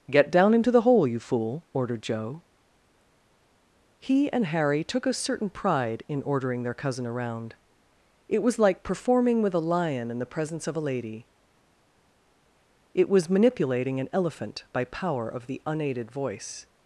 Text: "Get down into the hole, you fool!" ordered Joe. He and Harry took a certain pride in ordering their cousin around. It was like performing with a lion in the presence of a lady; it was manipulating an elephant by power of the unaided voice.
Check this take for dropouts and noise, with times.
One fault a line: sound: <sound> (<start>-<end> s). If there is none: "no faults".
no faults